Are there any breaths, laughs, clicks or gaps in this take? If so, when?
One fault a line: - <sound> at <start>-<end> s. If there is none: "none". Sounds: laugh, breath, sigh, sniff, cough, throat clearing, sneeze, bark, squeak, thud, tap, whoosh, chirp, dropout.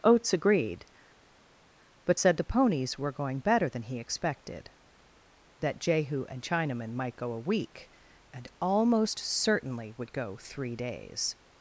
none